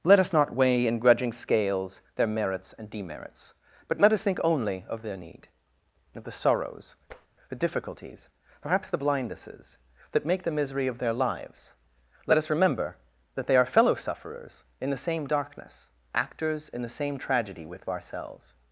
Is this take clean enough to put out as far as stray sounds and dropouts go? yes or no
no